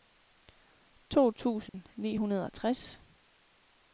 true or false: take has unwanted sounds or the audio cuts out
true